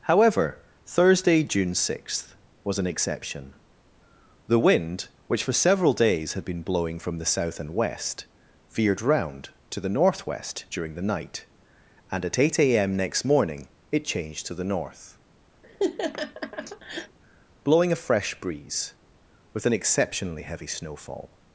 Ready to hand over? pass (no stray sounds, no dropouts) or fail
fail